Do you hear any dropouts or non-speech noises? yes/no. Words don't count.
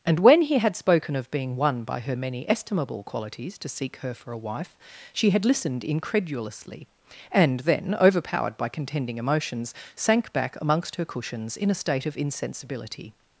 no